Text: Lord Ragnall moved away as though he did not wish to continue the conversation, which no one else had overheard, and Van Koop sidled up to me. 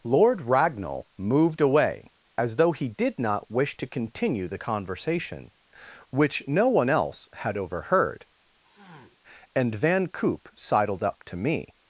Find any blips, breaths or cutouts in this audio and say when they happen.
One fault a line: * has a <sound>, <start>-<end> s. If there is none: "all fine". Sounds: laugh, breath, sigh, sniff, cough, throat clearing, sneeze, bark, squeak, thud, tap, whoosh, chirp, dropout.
* has a sniff, 8.6-9.2 s